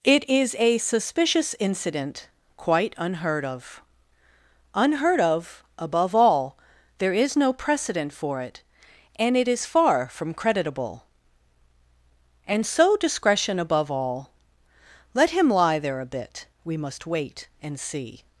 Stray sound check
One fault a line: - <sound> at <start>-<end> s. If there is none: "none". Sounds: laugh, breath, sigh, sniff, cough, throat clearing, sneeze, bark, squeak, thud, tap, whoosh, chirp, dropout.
none